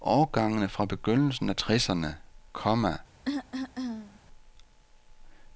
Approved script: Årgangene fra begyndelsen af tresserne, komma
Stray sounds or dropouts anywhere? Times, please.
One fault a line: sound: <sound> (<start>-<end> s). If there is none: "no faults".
sound: cough (3.2-4.2 s)